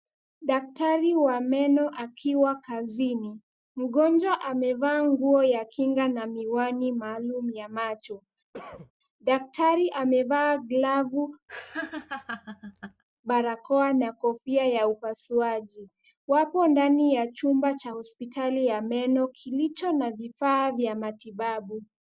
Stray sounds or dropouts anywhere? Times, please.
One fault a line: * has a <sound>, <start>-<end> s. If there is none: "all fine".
* has a cough, 8.5-8.9 s
* has a laugh, 11.5-13.0 s